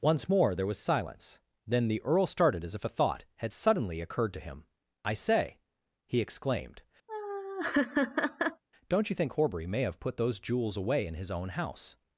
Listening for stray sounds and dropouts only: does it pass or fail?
fail